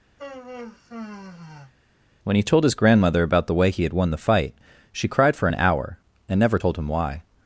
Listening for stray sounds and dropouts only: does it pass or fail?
fail